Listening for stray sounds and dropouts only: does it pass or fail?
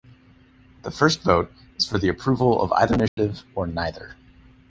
fail